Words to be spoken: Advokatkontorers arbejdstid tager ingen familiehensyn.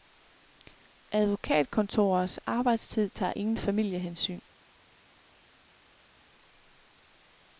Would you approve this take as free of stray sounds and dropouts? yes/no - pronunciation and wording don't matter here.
yes